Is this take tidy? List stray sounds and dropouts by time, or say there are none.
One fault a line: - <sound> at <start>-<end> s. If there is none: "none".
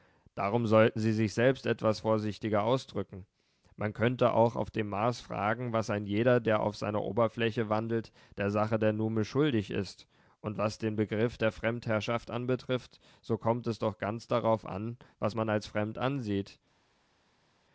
none